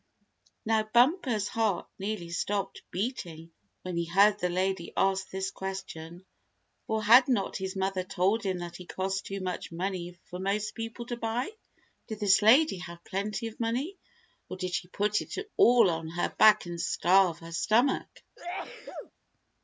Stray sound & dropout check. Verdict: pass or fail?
fail